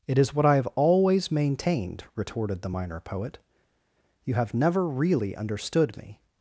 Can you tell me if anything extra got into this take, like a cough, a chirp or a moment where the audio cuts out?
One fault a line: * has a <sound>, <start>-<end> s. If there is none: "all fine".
all fine